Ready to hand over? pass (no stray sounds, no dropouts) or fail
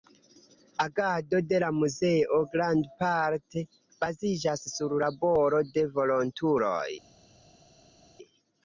pass